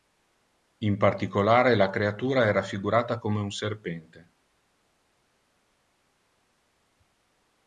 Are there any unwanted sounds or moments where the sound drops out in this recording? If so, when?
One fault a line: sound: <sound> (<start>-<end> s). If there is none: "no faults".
no faults